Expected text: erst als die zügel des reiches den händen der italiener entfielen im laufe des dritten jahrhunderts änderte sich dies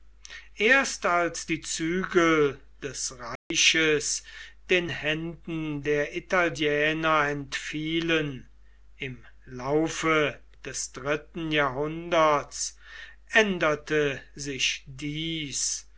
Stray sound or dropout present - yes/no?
yes